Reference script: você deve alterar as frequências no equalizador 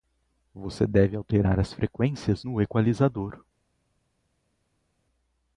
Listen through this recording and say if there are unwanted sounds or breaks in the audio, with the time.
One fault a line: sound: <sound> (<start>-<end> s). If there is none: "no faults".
no faults